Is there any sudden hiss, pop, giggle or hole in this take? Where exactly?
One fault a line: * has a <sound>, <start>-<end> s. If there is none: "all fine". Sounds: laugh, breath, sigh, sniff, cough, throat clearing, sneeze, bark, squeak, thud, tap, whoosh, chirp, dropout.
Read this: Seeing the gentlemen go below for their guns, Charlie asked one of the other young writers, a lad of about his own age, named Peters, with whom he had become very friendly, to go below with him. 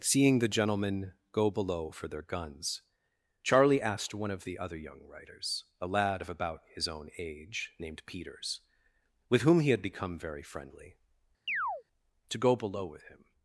* has a chirp, 11.5-11.8 s